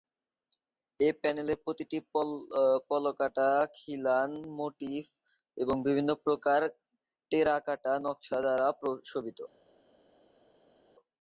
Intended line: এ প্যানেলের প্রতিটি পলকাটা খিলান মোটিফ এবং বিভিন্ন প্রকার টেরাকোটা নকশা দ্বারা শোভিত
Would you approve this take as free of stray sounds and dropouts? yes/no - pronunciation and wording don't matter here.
yes